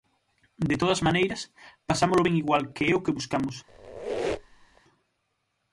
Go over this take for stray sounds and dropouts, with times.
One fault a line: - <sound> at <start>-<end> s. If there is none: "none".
- squeak at 3.7-4.8 s